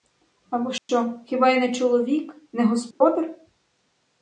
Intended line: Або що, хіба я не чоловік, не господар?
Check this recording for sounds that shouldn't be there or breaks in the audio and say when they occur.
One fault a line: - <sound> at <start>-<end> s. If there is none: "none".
- dropout at 0.8-0.9 s
- dropout at 2.9-3.0 s